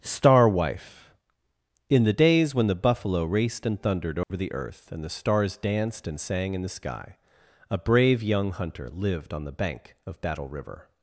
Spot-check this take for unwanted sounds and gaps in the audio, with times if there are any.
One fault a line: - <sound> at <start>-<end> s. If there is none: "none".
- dropout at 4.2-4.3 s